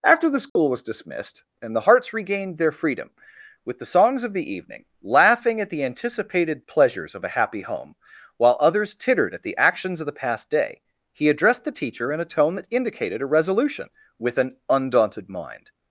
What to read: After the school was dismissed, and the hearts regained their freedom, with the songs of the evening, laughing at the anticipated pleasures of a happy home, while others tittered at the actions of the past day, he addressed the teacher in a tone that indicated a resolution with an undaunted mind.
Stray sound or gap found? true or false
true